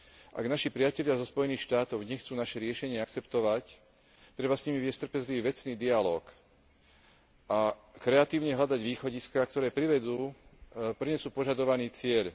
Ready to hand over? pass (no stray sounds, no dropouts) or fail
pass